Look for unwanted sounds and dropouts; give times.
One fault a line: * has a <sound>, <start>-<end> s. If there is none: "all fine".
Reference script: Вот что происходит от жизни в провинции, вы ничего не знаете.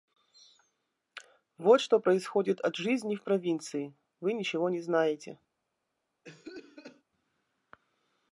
* has a cough, 6.2-7.0 s